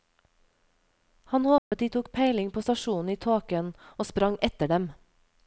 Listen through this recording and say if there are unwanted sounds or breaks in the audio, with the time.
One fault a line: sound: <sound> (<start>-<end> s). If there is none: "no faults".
sound: dropout (1.6-1.7 s)